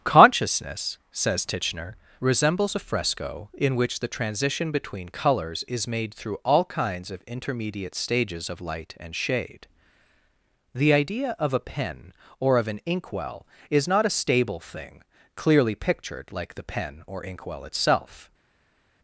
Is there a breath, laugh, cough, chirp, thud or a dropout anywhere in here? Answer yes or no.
no